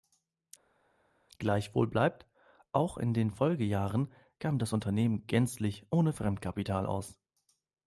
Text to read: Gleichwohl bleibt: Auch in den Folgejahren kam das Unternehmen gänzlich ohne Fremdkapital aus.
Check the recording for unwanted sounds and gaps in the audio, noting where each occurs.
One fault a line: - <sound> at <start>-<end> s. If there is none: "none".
none